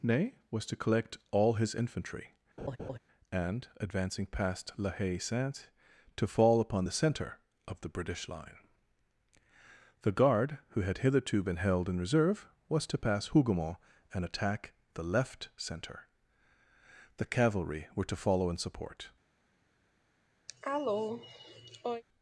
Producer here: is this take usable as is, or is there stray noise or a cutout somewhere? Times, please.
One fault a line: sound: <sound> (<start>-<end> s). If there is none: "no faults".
sound: laugh (2.6-3.0 s)
sound: cough (20.5-22.0 s)